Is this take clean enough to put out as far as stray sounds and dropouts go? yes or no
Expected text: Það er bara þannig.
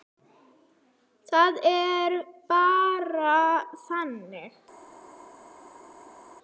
yes